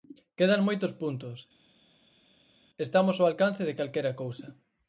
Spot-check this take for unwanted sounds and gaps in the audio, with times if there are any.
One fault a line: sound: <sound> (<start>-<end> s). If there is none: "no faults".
no faults